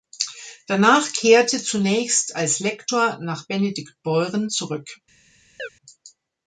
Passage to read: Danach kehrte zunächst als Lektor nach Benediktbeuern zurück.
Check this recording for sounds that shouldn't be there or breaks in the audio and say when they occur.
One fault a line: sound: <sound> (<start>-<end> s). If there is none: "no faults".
sound: chirp (5.6-5.7 s)